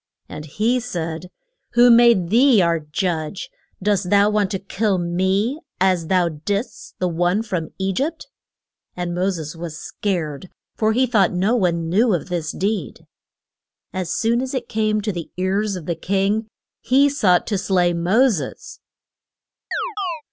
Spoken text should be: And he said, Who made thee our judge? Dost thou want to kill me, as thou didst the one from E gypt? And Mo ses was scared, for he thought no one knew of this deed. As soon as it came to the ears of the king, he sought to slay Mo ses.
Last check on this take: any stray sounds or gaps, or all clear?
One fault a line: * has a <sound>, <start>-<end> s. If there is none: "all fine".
* has a chirp, 19.7-20.2 s